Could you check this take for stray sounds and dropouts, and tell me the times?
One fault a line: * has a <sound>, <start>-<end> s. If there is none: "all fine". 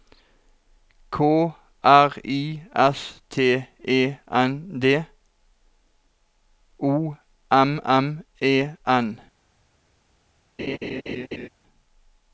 * has a laugh, 10.6-11.5 s